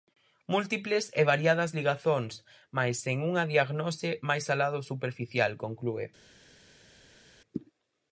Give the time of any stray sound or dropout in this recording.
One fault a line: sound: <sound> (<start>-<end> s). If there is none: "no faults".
no faults